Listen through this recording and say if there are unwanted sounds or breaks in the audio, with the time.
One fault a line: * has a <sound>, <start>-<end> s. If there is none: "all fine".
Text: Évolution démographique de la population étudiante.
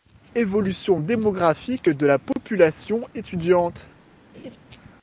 * has a dropout, 2.3-2.4 s
* has a laugh, 4.3-4.6 s